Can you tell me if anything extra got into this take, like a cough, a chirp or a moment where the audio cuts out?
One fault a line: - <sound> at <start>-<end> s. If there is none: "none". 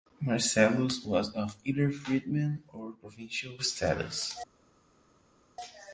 none